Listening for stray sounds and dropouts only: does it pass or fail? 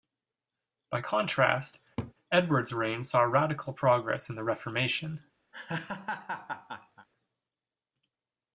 fail